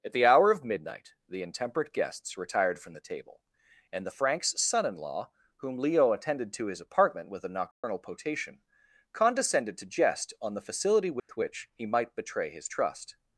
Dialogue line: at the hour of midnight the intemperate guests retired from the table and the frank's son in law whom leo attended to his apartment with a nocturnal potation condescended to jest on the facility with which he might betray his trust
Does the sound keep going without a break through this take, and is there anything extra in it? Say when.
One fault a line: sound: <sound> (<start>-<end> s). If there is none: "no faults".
sound: dropout (7.7-7.8 s)
sound: dropout (11.2-11.3 s)